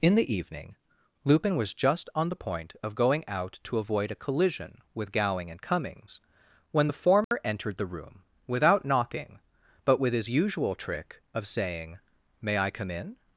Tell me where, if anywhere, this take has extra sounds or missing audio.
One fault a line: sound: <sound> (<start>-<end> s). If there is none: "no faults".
sound: dropout (7.2-7.3 s)